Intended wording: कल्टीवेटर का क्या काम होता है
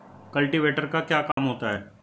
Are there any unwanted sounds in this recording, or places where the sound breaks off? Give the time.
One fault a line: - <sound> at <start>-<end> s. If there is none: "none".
- dropout at 1.3-1.4 s